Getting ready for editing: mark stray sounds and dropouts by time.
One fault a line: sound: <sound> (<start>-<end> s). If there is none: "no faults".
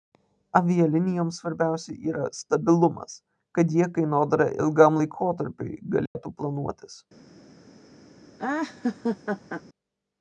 sound: dropout (6.1-6.2 s)
sound: laugh (8.4-9.6 s)